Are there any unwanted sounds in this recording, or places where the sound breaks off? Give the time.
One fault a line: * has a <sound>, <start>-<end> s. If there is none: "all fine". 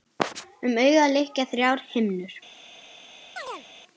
* has a chirp, 3.4-3.7 s